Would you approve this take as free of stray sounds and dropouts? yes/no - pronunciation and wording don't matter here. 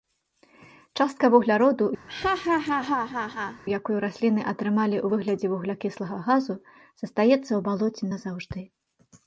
no